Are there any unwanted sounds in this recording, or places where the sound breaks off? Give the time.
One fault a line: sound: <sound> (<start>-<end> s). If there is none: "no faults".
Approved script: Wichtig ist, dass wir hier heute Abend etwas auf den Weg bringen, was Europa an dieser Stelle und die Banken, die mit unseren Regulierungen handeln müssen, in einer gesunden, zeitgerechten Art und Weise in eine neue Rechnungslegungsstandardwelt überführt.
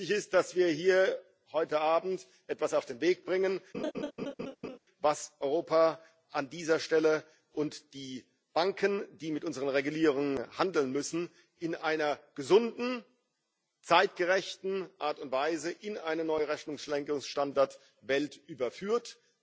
sound: laugh (3.7-4.8 s)